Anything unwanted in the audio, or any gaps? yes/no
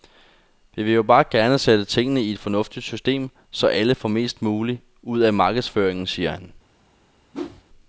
yes